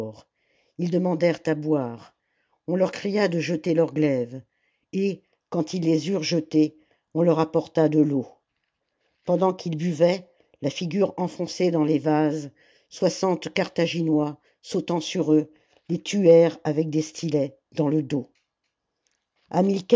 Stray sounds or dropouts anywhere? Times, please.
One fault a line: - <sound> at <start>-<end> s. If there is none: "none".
none